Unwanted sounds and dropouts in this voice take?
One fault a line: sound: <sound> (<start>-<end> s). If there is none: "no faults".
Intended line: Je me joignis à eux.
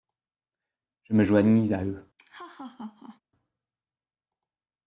sound: laugh (2.2-3.2 s)